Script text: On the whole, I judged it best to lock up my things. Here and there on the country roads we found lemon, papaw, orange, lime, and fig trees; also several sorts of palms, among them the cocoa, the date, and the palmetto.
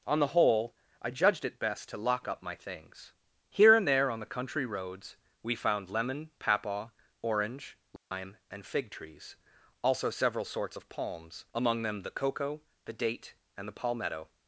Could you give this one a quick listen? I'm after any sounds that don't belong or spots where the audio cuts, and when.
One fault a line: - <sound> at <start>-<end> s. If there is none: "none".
- dropout at 8.0-8.1 s